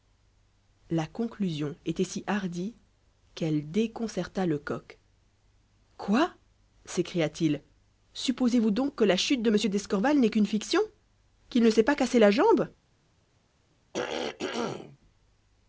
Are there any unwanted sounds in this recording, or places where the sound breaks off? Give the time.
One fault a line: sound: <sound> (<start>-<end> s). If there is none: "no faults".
sound: throat clearing (13.9-15.0 s)